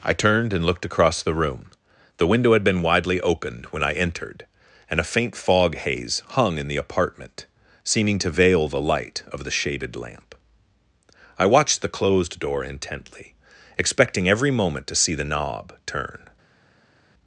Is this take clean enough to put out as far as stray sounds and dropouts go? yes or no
yes